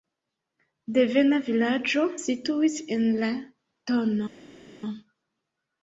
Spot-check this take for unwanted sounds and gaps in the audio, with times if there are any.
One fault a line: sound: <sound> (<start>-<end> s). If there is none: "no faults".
no faults